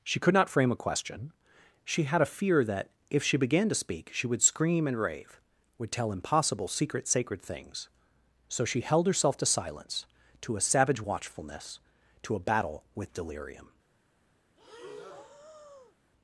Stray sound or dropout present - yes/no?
yes